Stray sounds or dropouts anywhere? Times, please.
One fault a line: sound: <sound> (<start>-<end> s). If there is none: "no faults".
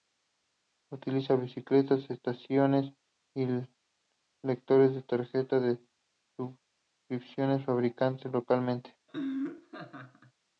sound: laugh (9.1-10.3 s)